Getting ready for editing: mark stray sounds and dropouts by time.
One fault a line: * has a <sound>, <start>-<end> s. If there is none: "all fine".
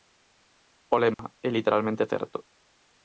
* has a dropout, 1.1-1.2 s